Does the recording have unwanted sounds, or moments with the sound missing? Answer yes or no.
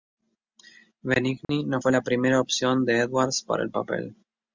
yes